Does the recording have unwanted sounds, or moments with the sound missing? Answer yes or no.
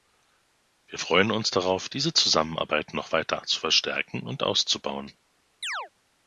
yes